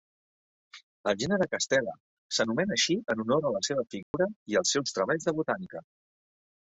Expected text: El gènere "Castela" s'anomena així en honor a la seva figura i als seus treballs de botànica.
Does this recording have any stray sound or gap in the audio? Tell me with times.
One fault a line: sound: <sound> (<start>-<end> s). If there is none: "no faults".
sound: dropout (4.0-4.1 s)